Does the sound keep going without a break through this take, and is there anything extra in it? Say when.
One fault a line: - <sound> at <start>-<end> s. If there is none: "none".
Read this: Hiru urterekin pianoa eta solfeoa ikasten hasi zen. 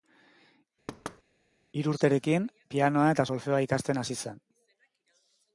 - thud at 0.9-1.2 s